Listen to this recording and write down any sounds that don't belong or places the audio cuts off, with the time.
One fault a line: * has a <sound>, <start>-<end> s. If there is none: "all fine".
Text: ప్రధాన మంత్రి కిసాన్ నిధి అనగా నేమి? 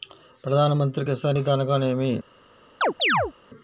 * has a chirp, 2.8-3.3 s